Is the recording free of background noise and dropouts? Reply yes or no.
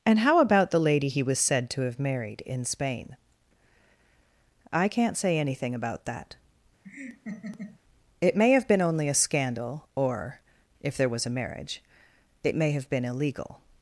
no